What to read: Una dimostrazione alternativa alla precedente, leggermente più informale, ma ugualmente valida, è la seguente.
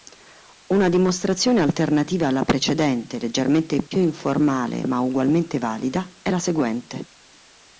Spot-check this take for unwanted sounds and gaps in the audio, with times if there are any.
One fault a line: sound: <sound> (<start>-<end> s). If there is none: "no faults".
sound: dropout (3.9-3.9 s)